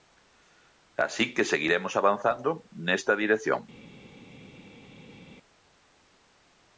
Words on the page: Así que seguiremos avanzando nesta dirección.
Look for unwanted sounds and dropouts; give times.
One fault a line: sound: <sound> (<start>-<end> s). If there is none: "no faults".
no faults